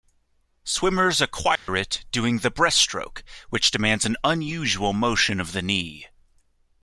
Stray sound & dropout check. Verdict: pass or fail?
fail